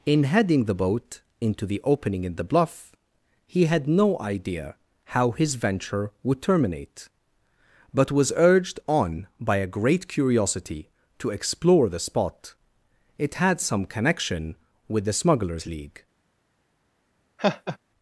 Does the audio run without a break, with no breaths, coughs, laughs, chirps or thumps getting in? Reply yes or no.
no